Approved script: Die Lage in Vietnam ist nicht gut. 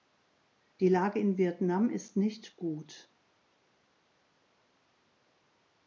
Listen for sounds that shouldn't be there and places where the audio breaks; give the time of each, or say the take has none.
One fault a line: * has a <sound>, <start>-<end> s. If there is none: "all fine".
all fine